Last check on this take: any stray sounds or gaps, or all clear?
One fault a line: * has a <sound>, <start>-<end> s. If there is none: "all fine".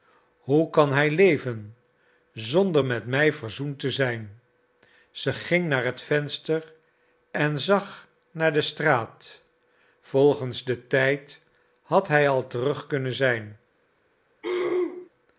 * has a throat clearing, 14.4-15.1 s